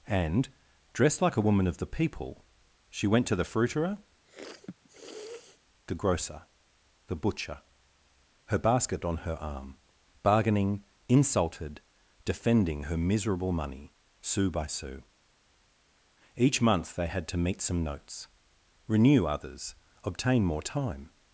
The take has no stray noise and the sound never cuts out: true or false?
false